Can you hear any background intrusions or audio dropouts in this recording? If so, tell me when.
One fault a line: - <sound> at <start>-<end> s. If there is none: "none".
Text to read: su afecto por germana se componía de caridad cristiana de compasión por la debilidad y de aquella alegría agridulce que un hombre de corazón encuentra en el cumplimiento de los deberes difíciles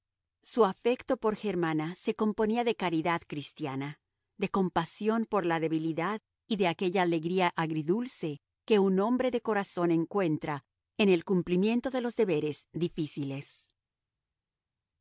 none